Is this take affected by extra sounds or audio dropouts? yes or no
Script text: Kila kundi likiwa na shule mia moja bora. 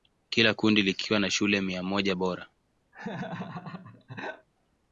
yes